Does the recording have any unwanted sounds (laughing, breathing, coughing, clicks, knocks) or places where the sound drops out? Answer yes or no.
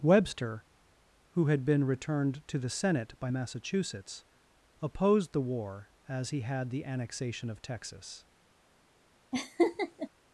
yes